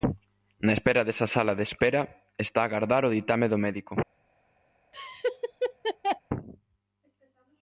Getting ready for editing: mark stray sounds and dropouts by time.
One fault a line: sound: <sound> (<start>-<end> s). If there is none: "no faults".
sound: laugh (4.9-6.2 s)